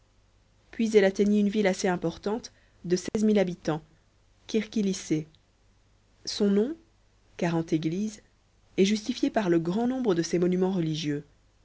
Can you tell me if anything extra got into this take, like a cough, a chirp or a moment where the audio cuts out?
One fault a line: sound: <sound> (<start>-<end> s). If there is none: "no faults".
sound: dropout (3.1-3.1 s)